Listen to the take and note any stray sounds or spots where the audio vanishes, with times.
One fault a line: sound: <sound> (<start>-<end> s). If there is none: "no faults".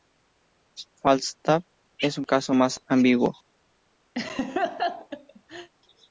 sound: laugh (4.2-5.7 s)